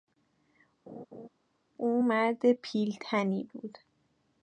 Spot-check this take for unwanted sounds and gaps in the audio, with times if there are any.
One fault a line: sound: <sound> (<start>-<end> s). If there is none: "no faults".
sound: laugh (0.9-1.3 s)